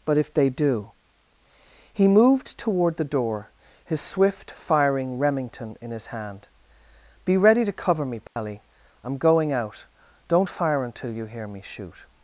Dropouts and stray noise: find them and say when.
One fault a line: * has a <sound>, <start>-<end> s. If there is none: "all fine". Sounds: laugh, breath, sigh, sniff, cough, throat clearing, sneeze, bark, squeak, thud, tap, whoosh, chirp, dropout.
* has a dropout, 8.3-8.4 s